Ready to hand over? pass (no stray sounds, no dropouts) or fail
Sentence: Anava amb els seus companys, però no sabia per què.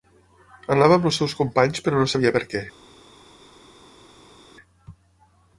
pass